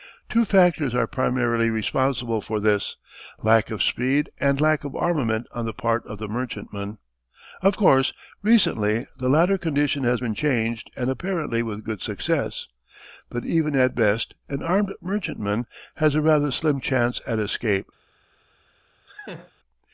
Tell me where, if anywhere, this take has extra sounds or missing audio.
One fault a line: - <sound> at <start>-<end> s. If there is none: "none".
- laugh at 19.1-19.5 s